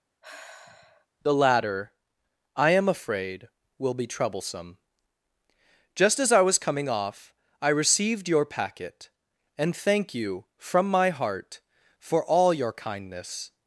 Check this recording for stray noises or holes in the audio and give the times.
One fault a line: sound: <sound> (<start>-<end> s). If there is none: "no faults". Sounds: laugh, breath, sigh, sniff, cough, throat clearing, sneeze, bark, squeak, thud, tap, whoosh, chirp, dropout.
sound: sigh (0.2-1.1 s)